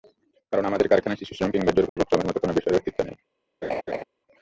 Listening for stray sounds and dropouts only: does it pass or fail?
fail